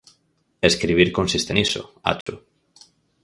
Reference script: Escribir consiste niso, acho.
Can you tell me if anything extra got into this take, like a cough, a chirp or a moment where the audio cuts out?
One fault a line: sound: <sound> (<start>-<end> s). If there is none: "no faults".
sound: dropout (2.2-2.3 s)